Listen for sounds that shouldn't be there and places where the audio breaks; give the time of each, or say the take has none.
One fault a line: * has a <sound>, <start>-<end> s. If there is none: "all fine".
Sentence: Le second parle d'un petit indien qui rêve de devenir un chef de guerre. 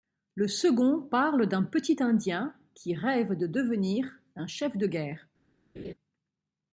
* has a laugh, 5.8-5.9 s